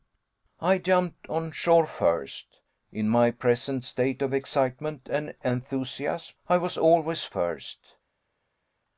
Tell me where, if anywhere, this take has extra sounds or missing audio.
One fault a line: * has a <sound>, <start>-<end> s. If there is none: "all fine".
all fine